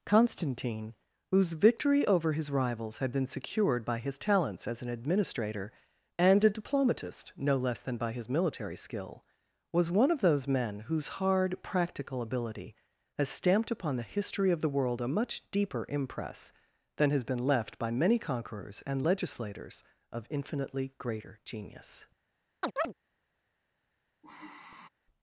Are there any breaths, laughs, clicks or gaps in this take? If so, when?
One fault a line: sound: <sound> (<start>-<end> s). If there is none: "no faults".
sound: chirp (22.6-22.9 s)
sound: sigh (24.2-24.9 s)